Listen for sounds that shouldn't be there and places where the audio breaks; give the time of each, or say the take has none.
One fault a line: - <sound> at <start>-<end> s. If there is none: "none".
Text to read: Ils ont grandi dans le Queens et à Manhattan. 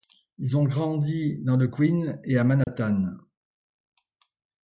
- dropout at 2.6-2.7 s